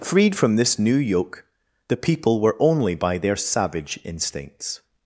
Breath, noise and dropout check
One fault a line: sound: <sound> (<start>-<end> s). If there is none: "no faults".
no faults